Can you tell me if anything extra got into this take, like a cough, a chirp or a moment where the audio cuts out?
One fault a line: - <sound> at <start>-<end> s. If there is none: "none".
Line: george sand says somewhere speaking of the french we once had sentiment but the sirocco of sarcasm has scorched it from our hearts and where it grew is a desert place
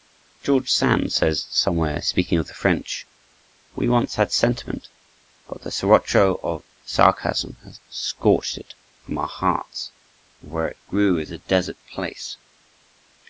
none